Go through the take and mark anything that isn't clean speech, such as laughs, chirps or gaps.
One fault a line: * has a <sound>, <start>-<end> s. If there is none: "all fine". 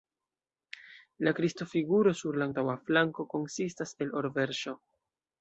all fine